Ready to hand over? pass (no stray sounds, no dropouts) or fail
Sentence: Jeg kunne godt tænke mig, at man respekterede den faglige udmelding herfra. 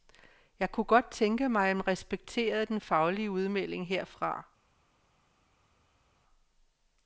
pass